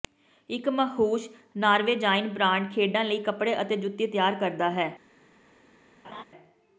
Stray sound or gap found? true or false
true